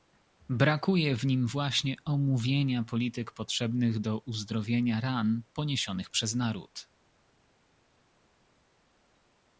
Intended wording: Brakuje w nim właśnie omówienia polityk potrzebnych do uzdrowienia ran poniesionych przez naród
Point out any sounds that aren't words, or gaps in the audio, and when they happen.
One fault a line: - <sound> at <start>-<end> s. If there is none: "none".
none